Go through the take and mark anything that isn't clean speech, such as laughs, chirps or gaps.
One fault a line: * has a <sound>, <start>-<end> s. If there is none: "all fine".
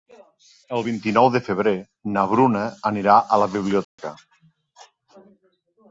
* has a dropout, 3.8-4.0 s